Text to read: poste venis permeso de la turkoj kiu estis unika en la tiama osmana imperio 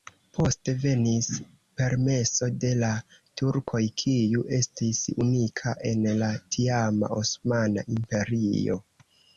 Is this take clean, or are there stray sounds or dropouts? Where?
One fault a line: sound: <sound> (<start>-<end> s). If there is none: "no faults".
no faults